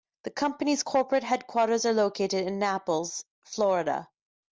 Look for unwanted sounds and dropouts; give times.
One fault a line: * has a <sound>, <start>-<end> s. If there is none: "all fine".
all fine